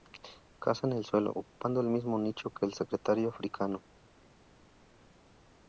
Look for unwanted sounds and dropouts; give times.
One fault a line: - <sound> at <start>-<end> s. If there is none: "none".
none